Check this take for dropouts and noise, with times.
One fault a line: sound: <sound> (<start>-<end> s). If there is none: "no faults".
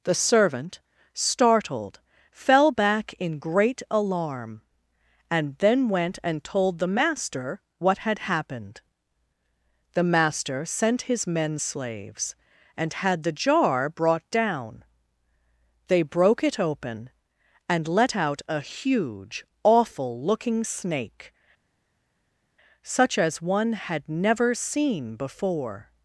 no faults